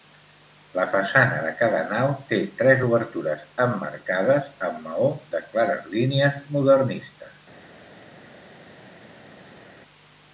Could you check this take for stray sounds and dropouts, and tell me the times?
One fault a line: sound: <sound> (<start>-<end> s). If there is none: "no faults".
no faults